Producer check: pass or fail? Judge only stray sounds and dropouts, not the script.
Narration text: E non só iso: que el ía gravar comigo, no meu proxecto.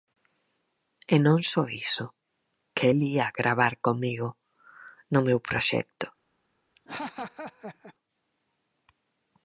fail